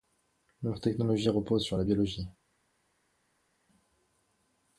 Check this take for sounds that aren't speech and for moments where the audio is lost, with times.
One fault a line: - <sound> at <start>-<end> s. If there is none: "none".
none